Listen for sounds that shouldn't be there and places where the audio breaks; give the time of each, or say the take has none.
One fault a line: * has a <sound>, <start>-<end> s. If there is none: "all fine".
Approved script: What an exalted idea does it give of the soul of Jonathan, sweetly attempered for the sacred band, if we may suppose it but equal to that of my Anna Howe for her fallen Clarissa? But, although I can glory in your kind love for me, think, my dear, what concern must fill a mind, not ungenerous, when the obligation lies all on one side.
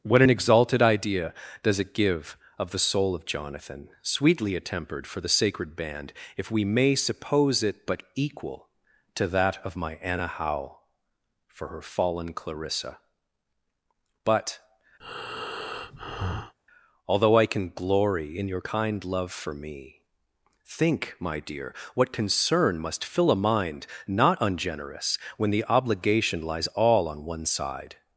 * has a breath, 15.0-16.5 s